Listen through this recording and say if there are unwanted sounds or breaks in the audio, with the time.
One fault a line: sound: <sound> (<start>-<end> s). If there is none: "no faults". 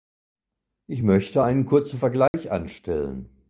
sound: dropout (2.3-2.3 s)